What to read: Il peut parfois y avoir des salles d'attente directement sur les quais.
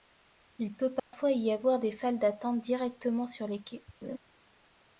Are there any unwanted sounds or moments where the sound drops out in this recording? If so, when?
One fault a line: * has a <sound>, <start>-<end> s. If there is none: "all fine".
* has a dropout, 1.0-1.1 s
* has a laugh, 4.0-4.2 s